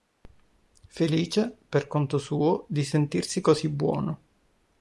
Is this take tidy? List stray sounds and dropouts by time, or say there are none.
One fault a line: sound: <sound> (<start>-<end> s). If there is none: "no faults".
no faults